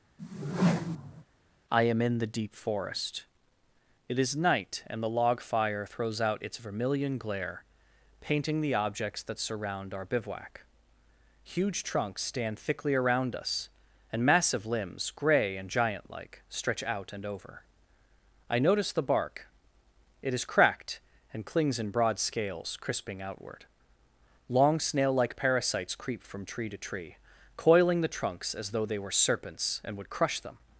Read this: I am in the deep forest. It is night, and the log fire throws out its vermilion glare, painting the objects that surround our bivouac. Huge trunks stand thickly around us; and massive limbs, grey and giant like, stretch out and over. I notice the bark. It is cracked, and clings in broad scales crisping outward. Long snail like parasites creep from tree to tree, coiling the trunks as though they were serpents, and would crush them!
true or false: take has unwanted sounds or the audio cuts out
true